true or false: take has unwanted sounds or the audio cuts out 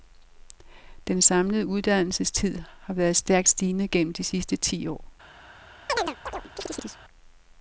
true